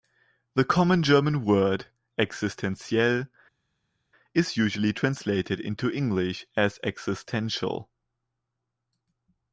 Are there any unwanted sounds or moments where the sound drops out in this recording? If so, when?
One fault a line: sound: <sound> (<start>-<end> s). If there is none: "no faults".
no faults